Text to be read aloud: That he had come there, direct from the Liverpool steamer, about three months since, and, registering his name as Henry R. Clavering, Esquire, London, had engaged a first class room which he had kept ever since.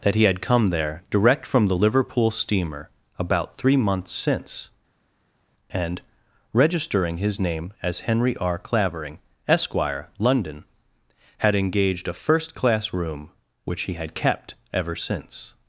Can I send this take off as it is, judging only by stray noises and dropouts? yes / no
yes